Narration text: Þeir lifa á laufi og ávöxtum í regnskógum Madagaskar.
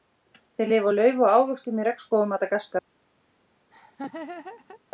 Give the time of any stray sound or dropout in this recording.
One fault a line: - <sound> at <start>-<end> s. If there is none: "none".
- laugh at 3.7-4.8 s